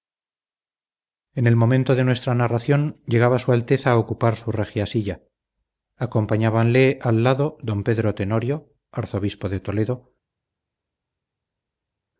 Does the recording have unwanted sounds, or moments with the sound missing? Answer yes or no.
no